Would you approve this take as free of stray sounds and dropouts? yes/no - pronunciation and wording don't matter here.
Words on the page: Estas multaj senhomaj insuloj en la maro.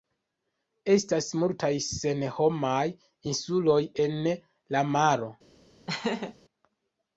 no